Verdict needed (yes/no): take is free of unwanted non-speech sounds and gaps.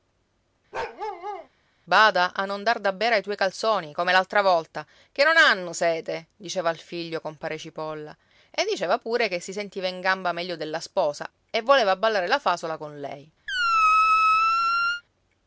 no